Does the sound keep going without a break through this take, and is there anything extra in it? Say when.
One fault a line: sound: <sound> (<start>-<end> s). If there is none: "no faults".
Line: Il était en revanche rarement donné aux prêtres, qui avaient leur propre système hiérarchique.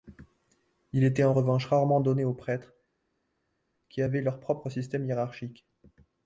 no faults